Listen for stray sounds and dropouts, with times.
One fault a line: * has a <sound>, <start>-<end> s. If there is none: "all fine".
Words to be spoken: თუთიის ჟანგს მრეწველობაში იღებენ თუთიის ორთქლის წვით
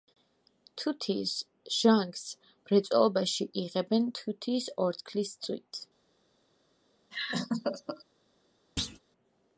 * has a laugh, 7.1-8.0 s
* has a thud, 8.8-9.0 s